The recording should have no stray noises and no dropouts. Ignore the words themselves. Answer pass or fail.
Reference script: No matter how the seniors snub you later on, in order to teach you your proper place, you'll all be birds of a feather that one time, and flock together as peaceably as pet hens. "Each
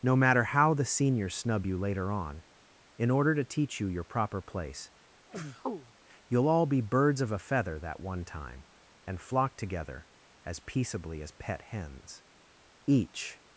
fail